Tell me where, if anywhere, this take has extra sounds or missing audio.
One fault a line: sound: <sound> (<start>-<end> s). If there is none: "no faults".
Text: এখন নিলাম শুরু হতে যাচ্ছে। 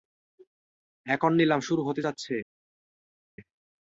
no faults